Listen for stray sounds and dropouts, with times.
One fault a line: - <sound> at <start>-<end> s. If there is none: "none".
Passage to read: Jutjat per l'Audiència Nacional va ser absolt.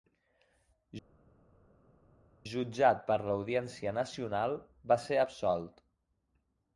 none